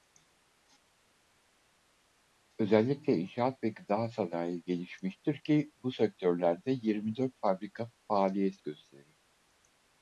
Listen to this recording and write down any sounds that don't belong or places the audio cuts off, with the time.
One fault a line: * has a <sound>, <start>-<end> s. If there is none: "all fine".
all fine